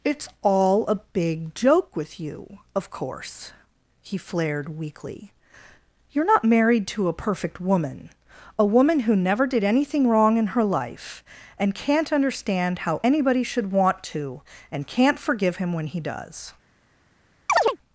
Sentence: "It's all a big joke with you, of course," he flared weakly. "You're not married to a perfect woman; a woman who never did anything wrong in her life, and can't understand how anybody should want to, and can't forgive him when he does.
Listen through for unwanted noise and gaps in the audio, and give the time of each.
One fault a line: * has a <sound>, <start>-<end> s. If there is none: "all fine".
* has a chirp, 17.5-17.8 s